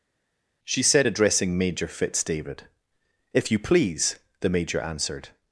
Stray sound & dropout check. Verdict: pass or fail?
pass